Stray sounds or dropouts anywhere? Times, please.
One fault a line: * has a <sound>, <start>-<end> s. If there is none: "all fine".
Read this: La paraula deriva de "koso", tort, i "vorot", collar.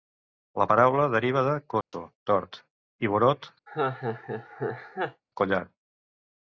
* has a dropout, 1.8-1.9 s
* has a laugh, 3.7-5.2 s